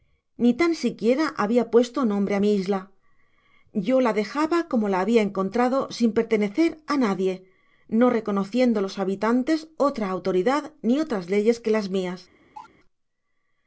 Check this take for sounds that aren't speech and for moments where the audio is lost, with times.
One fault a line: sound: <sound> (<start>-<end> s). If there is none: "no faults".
sound: cough (12.5-12.7 s)